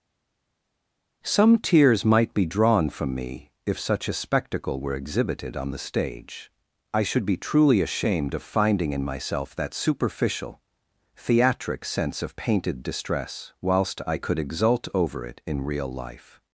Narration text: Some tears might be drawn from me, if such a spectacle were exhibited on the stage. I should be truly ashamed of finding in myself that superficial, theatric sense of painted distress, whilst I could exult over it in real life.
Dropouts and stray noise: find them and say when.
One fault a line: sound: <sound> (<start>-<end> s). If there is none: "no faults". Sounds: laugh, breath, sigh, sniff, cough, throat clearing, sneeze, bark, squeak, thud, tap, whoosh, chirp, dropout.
no faults